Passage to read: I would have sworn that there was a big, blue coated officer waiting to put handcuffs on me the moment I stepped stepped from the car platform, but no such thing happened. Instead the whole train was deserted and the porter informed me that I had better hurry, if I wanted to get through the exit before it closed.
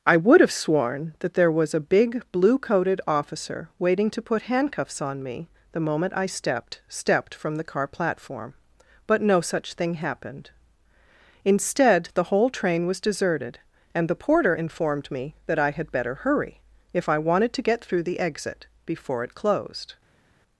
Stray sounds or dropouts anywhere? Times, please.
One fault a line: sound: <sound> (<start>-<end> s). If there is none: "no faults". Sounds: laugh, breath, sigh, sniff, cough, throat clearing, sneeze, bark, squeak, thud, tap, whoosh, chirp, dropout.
no faults